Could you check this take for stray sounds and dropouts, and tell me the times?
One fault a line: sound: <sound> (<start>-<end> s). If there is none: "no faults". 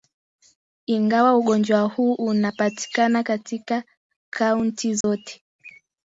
sound: dropout (5.0-5.0 s)